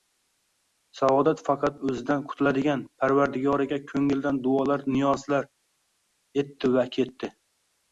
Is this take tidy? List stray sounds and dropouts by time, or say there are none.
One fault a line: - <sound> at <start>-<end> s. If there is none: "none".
none